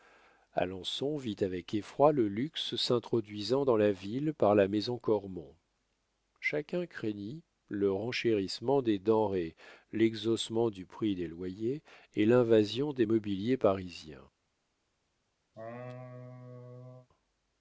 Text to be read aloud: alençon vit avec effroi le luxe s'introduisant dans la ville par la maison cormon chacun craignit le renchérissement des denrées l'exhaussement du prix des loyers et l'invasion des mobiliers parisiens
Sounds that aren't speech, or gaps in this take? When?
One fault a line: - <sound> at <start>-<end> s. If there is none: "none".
- laugh at 15.5-17.1 s